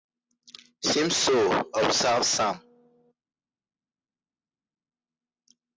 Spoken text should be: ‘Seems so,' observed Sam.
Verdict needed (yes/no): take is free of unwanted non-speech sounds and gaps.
yes